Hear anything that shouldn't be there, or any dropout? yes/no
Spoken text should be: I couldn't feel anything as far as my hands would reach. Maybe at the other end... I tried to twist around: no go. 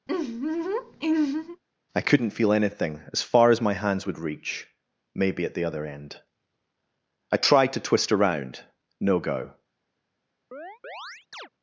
yes